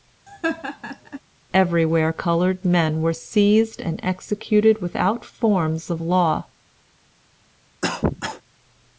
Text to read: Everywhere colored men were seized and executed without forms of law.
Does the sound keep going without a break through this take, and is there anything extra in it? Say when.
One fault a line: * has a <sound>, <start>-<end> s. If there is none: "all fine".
* has a laugh, 0.3-1.2 s
* has a cough, 7.8-8.4 s